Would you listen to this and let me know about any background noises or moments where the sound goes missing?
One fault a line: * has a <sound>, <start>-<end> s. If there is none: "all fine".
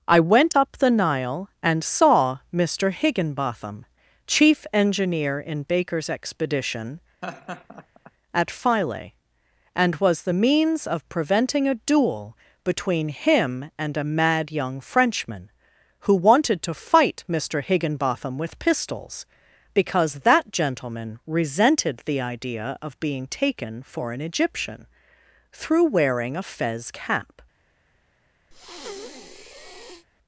* has a laugh, 7.2-8.1 s
* has a breath, 28.5-30.1 s